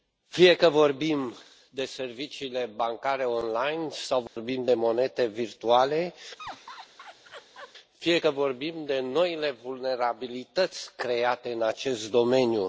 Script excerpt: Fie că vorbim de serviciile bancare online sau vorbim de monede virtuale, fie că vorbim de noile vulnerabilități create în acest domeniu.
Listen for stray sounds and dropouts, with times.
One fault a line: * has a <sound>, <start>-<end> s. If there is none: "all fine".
* has a dropout, 4.3-4.4 s
* has a laugh, 6.4-7.7 s